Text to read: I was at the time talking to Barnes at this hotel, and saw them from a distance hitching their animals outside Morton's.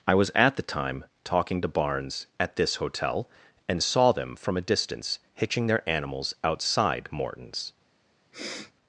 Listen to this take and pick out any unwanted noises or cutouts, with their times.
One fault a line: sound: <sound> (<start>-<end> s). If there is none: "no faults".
sound: sniff (8.3-8.7 s)